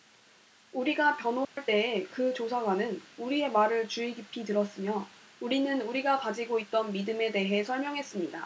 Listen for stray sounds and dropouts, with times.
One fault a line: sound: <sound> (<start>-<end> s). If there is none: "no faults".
sound: dropout (1.4-1.6 s)